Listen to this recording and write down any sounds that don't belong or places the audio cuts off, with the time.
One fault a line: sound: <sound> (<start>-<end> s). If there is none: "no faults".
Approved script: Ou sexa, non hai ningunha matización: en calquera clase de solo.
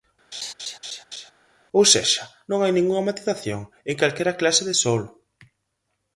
sound: laugh (0.3-1.3 s)